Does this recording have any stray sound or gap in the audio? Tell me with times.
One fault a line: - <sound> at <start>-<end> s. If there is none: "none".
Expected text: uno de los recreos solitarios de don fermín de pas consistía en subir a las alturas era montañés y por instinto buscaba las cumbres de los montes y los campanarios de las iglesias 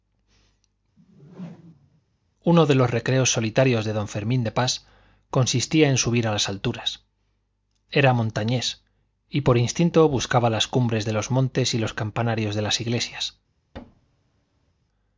- whoosh at 1.0-2.0 s
- thud at 13.7-14.7 s